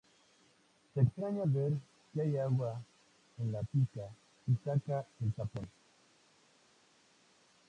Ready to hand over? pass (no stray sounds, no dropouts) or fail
pass